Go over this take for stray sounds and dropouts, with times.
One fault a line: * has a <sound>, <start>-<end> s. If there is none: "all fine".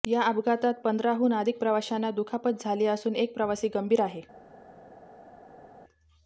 all fine